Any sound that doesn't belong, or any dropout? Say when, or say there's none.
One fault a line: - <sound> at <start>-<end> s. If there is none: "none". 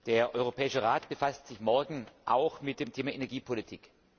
none